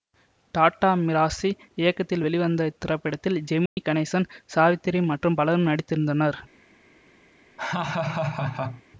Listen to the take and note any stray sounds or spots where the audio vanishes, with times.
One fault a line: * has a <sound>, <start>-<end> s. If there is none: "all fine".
* has a dropout, 3.7-3.8 s
* has a laugh, 7.6-8.8 s